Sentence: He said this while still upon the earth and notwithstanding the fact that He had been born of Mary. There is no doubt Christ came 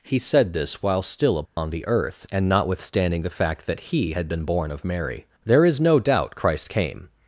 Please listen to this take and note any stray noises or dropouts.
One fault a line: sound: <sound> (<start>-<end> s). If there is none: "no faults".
sound: dropout (1.5-1.6 s)